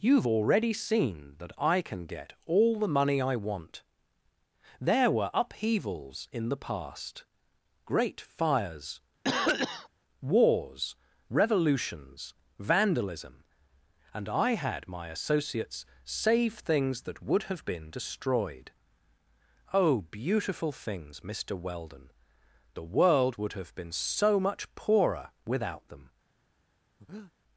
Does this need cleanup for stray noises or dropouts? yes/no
yes